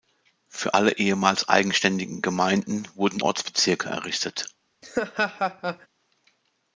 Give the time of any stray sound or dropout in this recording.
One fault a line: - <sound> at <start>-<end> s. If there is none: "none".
- laugh at 4.8-5.9 s